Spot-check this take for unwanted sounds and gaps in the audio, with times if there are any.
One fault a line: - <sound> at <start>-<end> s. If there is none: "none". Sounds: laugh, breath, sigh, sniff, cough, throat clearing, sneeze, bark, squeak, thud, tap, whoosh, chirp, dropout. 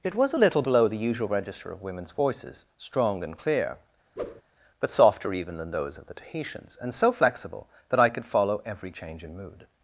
- whoosh at 4.2-4.4 s